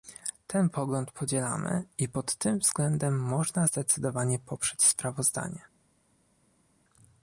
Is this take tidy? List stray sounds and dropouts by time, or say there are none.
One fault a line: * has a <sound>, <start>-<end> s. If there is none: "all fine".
all fine